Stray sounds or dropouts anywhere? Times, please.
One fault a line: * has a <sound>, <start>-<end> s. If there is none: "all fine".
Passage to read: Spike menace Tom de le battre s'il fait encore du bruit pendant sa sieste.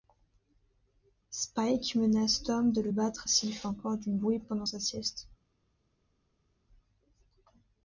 all fine